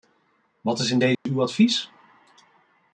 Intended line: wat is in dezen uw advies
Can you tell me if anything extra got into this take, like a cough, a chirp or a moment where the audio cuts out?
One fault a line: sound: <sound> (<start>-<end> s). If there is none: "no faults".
sound: dropout (1.1-1.3 s)